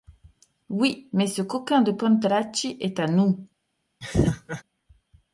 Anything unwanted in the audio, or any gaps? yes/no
yes